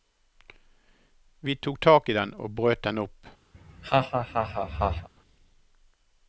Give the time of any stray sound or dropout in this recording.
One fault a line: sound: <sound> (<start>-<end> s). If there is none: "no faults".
sound: laugh (3.5-5.1 s)